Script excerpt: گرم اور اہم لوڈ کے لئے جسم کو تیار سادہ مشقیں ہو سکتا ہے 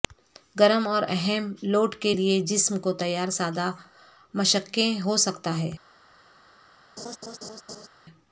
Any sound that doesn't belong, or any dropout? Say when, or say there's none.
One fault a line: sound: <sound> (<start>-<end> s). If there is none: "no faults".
sound: laugh (7.0-7.9 s)